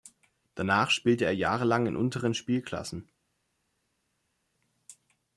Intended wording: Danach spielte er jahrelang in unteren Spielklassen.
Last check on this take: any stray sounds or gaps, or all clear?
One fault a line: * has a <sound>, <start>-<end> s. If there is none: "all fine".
all fine